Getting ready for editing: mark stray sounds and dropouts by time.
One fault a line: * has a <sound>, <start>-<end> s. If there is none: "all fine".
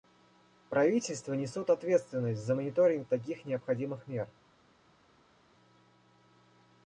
all fine